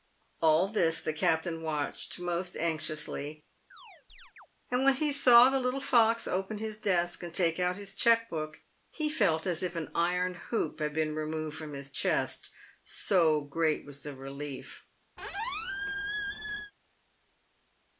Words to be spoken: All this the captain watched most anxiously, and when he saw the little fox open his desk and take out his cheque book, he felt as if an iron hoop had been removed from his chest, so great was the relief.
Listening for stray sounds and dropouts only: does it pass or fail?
fail